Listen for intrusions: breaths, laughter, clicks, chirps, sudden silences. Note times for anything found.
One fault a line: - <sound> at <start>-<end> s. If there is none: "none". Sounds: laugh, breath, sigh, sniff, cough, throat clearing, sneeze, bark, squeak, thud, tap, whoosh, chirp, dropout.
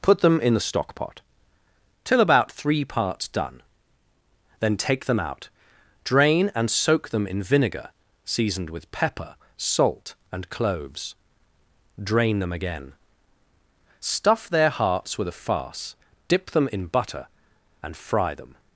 none